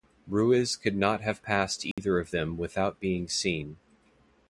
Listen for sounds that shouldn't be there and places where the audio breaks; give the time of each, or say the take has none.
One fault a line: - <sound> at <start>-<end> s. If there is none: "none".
- dropout at 1.9-2.0 s